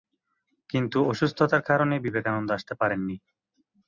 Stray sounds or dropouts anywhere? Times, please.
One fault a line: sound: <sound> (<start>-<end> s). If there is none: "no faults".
no faults